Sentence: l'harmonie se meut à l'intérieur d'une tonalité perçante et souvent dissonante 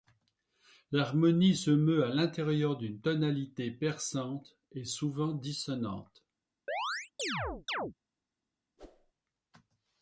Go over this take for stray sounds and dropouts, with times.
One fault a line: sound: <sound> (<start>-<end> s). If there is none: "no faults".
sound: chirp (6.7-7.9 s)
sound: whoosh (8.8-9.1 s)